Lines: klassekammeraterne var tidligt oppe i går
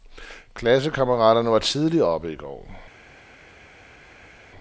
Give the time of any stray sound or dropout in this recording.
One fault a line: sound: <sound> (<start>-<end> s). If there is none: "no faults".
no faults